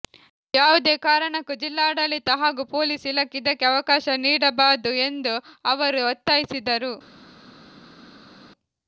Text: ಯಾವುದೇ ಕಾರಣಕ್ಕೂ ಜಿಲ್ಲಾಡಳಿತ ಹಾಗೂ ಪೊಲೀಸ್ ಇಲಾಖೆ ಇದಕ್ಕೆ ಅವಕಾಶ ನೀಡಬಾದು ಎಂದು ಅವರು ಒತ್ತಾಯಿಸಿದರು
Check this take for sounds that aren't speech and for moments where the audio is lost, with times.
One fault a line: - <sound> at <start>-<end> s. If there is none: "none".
none